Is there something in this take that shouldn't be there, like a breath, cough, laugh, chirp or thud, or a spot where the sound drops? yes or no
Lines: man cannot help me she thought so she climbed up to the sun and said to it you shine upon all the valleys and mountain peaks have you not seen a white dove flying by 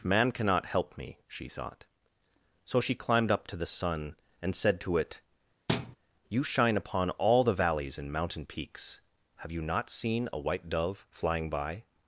yes